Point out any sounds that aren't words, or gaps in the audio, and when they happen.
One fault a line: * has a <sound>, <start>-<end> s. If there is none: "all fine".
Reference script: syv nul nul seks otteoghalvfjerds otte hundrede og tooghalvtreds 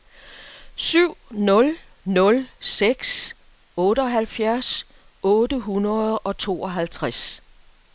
all fine